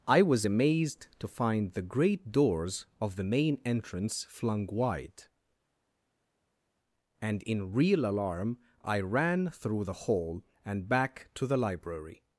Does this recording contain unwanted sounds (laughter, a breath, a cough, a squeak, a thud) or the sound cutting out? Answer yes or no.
no